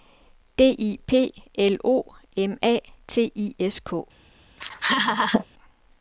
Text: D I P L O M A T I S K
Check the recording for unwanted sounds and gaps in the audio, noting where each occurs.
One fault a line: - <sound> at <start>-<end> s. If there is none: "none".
- laugh at 4.6-5.5 s